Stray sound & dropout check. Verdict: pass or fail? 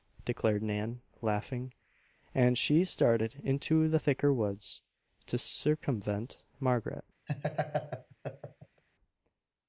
fail